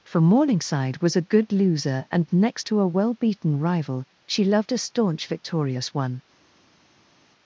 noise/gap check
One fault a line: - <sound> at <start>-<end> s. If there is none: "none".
none